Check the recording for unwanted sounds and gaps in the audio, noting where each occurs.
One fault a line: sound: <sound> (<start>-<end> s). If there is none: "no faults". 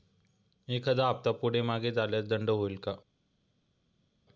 no faults